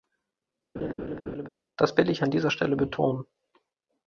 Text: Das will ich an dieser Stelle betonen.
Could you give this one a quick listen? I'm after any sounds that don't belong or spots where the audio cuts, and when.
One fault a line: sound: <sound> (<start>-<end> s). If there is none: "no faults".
sound: laugh (0.8-1.5 s)